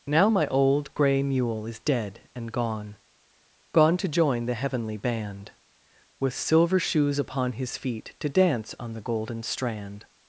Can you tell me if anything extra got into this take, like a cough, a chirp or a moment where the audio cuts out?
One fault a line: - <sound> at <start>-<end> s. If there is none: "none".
none